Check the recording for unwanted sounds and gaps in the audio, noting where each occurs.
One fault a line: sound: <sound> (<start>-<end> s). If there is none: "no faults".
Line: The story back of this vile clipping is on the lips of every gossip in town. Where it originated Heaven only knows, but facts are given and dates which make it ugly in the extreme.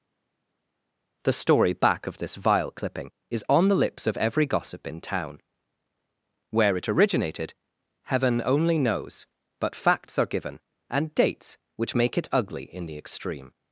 no faults